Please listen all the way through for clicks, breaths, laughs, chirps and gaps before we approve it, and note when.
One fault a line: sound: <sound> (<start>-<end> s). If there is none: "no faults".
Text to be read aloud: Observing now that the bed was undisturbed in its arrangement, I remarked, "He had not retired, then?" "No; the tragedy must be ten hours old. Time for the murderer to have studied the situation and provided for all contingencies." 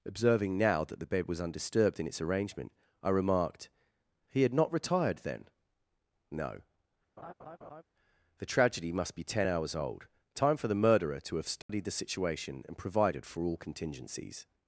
sound: laugh (7.2-7.8 s)
sound: dropout (11.6-11.7 s)